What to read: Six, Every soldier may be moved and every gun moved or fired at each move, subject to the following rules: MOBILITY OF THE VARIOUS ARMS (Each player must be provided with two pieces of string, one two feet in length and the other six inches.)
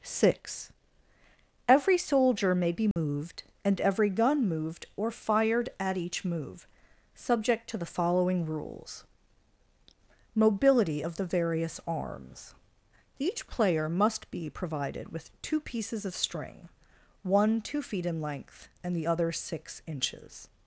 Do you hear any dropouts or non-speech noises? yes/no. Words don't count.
yes